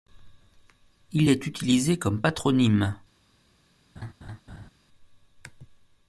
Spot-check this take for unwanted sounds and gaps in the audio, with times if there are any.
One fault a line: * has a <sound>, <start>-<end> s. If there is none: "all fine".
* has a laugh, 4.0-4.7 s